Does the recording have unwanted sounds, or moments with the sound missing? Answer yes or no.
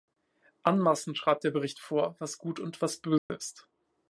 yes